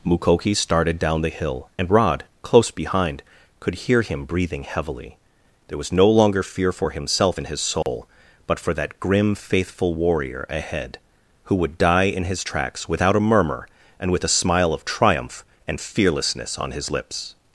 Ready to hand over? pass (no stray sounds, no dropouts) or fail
fail